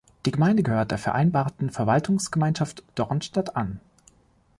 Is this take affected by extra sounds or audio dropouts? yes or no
no